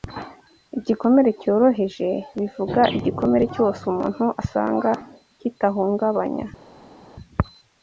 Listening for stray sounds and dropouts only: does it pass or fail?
pass